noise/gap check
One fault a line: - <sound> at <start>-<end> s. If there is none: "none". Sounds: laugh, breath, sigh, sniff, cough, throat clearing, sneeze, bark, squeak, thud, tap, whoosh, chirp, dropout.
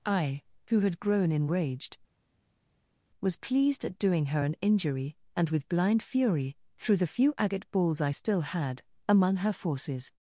none